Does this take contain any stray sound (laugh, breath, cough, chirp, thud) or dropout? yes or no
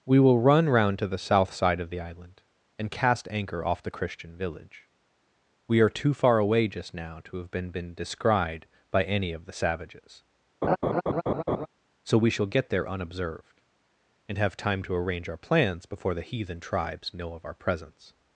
yes